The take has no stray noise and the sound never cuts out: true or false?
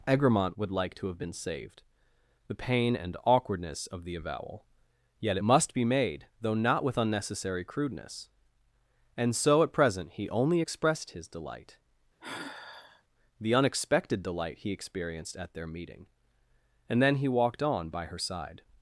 false